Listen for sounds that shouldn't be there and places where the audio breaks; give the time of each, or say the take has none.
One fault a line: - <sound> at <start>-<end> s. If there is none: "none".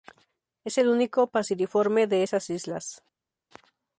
none